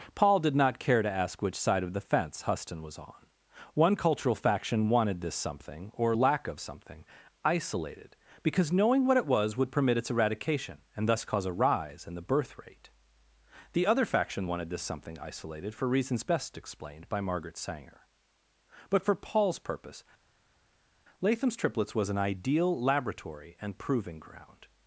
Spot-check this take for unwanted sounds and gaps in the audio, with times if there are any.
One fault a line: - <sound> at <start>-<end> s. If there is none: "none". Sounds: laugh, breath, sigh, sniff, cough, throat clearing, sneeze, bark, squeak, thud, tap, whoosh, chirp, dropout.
none